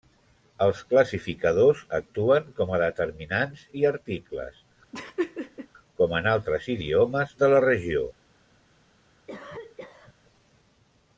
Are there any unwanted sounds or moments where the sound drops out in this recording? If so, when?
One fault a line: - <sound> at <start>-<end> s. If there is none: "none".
- laugh at 4.9-5.7 s
- cough at 9.3-10.1 s